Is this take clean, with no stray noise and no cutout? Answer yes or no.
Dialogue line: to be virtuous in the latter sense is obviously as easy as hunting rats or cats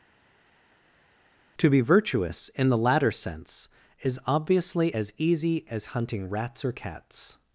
yes